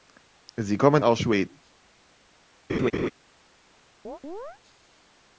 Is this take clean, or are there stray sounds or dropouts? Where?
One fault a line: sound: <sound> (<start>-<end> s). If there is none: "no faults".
sound: laugh (2.7-3.1 s)
sound: chirp (4.0-4.6 s)